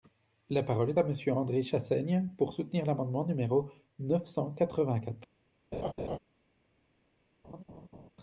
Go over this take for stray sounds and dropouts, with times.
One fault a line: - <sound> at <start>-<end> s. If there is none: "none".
- laugh at 5.7-6.2 s
- laugh at 7.4-8.1 s